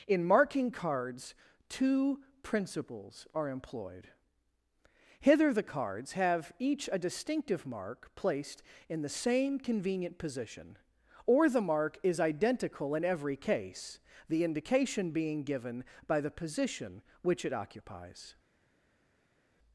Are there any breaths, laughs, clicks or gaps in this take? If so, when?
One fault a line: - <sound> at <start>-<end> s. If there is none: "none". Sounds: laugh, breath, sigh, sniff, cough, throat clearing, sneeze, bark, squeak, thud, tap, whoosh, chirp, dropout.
none